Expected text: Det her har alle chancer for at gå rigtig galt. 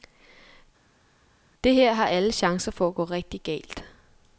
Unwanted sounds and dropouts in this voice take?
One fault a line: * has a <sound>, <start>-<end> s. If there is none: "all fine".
all fine